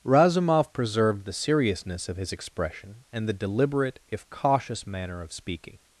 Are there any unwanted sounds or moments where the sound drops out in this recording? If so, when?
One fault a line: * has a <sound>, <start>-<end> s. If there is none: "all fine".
all fine